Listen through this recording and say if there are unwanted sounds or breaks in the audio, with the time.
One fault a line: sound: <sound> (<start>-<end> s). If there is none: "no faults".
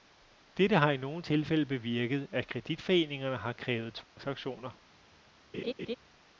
sound: dropout (4.0-4.2 s)
sound: laugh (5.5-6.0 s)